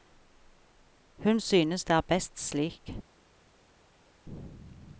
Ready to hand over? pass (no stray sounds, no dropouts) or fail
pass